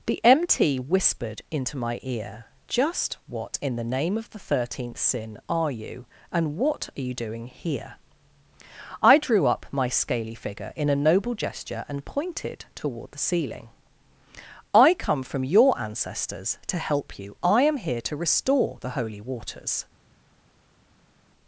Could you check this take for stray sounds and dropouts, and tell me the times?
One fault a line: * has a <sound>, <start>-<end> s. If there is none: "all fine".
all fine